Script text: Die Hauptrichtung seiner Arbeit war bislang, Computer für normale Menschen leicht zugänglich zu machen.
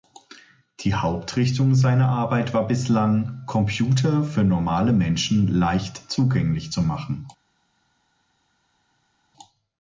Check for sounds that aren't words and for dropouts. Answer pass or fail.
pass